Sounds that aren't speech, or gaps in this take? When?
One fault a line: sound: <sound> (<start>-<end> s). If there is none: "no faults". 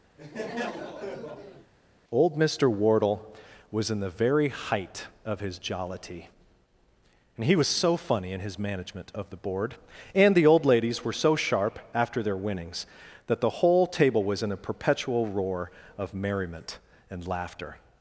sound: laugh (0.2-1.7 s)